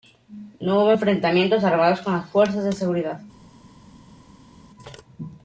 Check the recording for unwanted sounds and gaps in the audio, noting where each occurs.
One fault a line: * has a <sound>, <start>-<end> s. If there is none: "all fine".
all fine